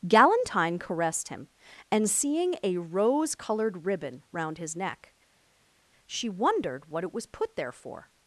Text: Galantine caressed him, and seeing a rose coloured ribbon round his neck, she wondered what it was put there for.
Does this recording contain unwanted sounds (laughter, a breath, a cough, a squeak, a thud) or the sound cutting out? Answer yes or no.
no